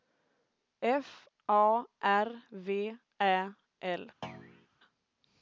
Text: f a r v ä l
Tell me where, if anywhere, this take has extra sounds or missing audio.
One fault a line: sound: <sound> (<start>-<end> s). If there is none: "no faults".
sound: thud (4.2-4.7 s)